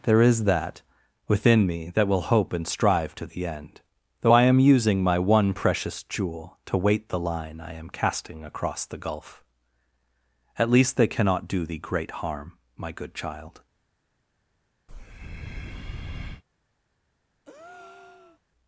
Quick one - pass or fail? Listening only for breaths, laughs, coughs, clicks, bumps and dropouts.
fail